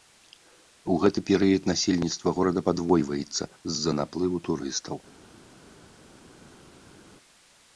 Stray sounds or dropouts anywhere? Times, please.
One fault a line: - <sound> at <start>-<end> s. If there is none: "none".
none